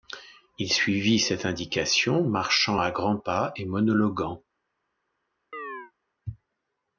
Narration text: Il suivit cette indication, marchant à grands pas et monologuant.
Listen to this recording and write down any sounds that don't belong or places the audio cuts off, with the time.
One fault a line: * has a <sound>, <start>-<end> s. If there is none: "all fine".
* has a chirp, 5.5-5.9 s